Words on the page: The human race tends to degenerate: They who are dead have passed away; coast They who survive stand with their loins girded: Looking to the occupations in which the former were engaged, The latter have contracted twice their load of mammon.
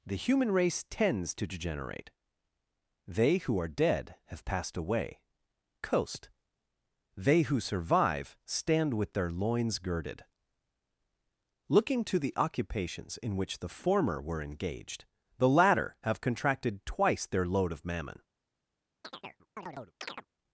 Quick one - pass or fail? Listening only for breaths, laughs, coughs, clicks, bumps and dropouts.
fail